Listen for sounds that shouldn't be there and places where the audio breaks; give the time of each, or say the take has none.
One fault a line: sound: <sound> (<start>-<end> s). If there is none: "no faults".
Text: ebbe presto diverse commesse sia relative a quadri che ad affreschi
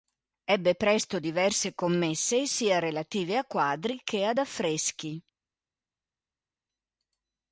no faults